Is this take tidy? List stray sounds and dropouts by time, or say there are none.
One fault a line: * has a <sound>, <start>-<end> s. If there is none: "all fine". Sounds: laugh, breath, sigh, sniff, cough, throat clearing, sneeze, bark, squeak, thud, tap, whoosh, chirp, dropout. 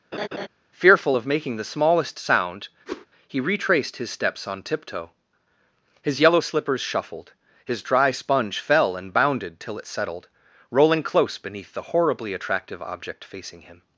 * has a laugh, 0.1-0.5 s
* has a whoosh, 2.9-3.1 s